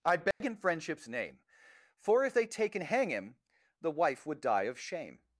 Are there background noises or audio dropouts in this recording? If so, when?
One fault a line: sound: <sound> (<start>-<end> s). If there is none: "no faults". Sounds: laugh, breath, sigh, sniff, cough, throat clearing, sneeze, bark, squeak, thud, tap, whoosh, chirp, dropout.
sound: dropout (0.3-0.4 s)